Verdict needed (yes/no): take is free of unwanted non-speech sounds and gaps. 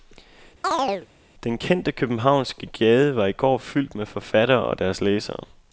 no